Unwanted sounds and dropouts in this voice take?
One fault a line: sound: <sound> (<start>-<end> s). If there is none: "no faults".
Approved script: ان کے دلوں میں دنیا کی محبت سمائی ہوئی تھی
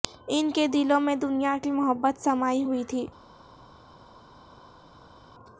no faults